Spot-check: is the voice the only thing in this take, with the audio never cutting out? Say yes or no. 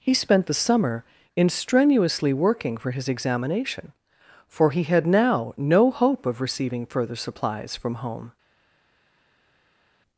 yes